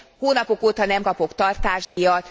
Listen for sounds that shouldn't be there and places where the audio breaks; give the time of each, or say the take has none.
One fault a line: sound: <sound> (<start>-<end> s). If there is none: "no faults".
sound: dropout (1.8-2.0 s)